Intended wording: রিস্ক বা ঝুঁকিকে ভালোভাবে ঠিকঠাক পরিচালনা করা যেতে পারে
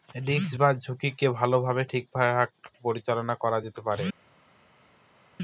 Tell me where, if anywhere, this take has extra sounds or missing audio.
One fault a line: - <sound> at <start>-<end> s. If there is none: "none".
none